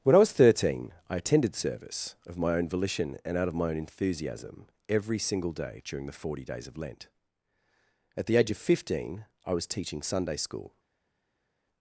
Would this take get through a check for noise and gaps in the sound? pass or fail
pass